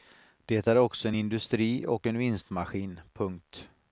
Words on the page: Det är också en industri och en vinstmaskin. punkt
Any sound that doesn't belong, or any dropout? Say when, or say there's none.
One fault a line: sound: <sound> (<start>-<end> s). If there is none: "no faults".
no faults